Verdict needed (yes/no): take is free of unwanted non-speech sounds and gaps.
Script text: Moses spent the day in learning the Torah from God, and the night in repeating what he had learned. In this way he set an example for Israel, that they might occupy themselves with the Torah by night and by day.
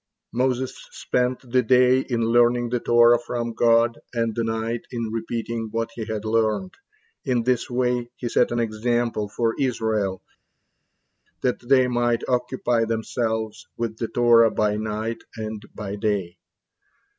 yes